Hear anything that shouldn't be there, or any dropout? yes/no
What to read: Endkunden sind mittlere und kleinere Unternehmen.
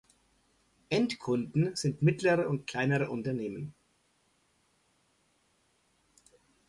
no